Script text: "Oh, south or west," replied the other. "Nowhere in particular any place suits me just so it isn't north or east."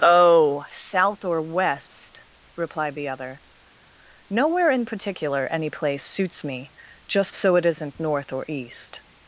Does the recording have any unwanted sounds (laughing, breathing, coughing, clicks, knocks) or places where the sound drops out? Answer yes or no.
no